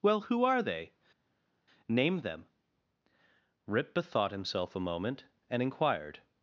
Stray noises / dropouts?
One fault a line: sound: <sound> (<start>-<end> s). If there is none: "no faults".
no faults